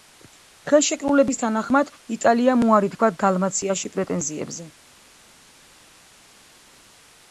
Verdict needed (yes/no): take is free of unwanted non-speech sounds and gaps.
yes